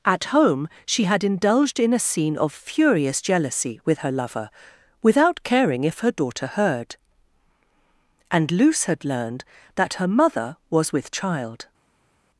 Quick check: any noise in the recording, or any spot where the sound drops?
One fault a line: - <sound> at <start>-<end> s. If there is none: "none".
none